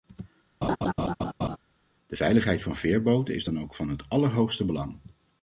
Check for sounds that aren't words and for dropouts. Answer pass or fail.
fail